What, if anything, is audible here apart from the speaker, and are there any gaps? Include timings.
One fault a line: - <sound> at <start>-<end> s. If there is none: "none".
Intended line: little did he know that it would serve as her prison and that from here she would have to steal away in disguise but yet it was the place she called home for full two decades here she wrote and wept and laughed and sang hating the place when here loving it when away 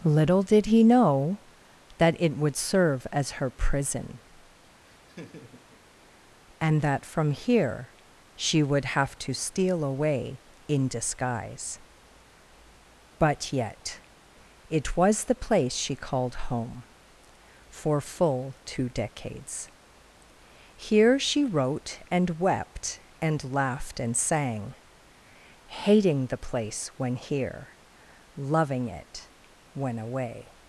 - laugh at 4.9-5.8 s